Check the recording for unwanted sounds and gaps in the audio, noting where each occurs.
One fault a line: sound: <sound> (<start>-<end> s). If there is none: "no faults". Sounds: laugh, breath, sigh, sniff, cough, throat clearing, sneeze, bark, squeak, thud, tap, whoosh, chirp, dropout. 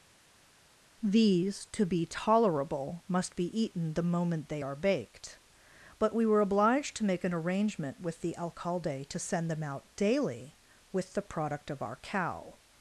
no faults